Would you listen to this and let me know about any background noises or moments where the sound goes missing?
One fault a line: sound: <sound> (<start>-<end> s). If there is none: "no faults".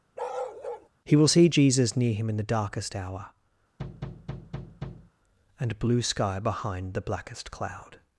sound: bark (0.2-0.9 s)
sound: thud (3.8-5.1 s)